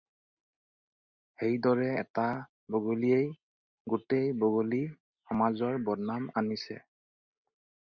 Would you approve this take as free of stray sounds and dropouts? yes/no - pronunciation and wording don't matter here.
yes